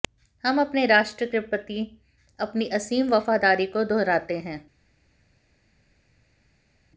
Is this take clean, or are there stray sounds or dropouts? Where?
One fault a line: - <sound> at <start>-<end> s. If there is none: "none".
none